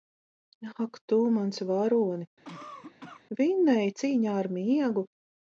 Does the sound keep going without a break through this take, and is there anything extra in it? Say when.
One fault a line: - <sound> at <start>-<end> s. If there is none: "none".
- cough at 2.4-3.2 s